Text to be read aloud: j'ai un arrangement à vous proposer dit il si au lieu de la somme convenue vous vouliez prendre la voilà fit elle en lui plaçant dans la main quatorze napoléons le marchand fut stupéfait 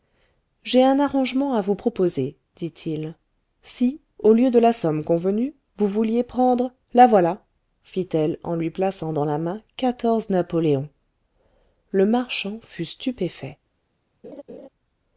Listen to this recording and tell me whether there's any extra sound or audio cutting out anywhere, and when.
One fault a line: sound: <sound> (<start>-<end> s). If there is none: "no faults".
sound: laugh (14.2-14.7 s)